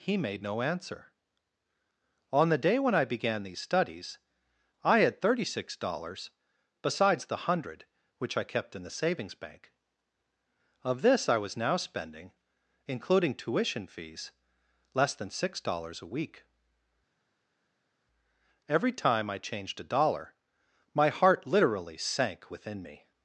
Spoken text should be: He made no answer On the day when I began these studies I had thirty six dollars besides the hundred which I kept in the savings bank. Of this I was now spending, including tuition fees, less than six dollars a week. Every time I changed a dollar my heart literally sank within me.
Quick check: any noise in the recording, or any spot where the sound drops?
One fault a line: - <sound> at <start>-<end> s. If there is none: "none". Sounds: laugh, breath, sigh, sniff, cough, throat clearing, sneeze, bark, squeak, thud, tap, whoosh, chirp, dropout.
none